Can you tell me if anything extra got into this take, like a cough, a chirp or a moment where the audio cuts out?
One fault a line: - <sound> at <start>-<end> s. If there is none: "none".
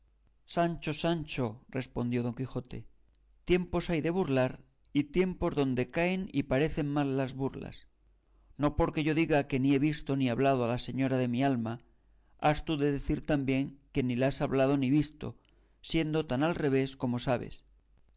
none